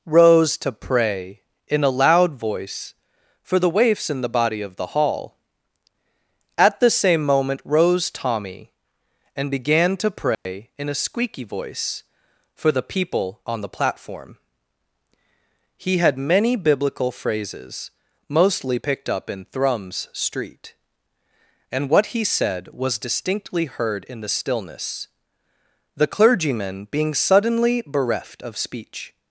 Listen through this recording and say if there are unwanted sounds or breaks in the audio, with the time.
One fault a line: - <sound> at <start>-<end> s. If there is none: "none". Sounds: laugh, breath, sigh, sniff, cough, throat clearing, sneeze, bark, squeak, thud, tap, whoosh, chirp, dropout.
- dropout at 10.3-10.5 s